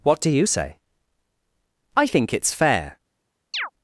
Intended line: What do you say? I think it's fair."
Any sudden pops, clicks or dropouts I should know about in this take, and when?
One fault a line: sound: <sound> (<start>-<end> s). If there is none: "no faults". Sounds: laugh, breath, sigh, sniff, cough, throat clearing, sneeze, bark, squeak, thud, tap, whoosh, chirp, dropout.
sound: chirp (3.5-3.7 s)